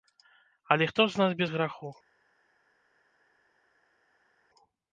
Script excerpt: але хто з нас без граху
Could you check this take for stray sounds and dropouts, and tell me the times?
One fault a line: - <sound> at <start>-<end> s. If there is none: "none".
none